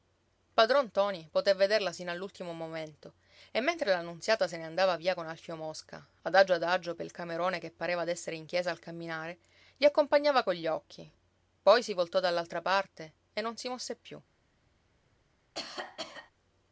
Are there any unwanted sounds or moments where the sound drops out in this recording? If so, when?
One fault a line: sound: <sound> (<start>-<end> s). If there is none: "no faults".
sound: cough (15.5-16.3 s)